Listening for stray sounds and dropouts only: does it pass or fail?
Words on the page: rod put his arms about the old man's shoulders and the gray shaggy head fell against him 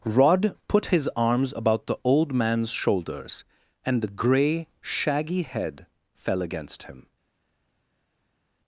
pass